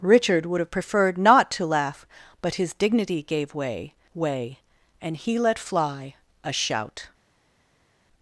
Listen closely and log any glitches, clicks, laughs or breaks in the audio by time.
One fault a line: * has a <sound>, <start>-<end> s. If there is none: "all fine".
all fine